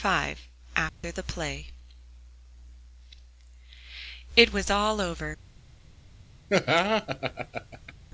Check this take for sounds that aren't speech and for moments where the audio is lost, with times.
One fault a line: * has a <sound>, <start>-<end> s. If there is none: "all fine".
* has a dropout, 0.9-1.0 s
* has a laugh, 6.5-7.9 s